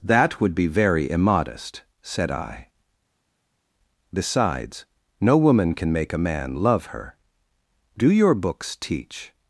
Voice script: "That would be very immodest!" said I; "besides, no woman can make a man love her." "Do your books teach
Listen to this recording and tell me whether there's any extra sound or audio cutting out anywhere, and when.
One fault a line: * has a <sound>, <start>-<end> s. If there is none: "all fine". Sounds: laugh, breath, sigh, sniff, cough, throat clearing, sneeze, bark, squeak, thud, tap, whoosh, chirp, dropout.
all fine